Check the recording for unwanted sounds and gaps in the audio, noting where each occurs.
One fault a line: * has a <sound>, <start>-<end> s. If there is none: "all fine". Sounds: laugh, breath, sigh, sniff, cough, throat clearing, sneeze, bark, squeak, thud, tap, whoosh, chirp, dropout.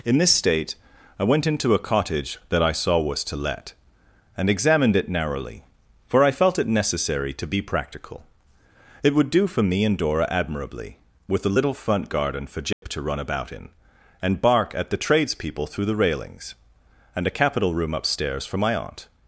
* has a dropout, 12.7-12.8 s